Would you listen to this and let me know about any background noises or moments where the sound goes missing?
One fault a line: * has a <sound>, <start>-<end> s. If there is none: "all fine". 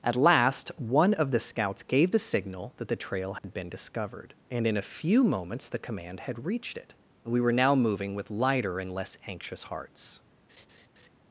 * has a dropout, 3.4-3.4 s
* has a laugh, 10.5-11.1 s